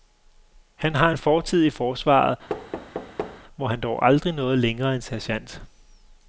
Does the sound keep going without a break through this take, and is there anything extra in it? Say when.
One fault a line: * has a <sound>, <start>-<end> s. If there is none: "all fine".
* has a thud, 2.5-3.4 s